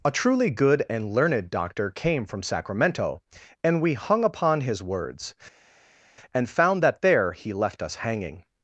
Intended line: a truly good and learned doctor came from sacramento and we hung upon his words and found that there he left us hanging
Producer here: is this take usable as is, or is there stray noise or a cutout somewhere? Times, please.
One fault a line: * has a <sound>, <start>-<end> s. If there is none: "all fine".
all fine